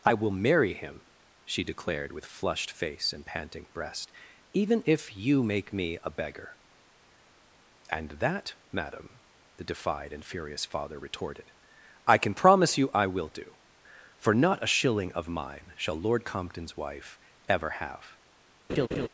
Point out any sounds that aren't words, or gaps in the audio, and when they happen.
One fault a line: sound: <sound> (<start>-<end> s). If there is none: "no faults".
sound: laugh (18.7-19.1 s)